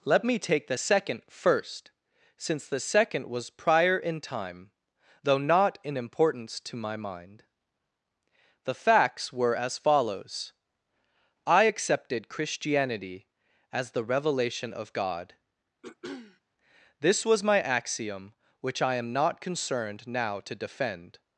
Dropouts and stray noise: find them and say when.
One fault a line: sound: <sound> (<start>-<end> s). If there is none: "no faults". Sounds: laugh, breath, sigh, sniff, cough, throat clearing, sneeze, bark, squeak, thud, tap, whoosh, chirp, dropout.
sound: throat clearing (15.8-16.4 s)